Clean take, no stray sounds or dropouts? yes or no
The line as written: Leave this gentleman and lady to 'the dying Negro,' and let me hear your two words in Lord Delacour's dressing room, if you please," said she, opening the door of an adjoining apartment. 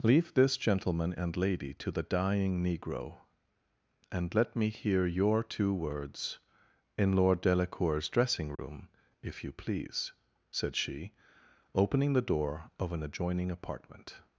no